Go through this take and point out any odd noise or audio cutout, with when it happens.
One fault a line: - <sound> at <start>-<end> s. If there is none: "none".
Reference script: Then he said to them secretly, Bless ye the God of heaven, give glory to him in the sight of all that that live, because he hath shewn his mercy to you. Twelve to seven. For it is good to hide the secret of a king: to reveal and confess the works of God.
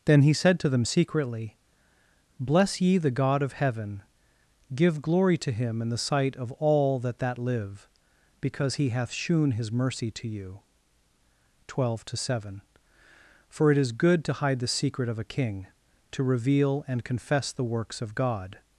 none